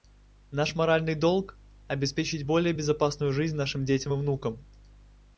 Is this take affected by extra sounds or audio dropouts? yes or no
no